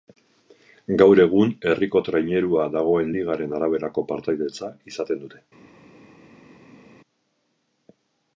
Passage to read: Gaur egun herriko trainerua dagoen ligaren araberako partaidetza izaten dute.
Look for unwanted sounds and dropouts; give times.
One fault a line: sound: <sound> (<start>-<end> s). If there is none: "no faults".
no faults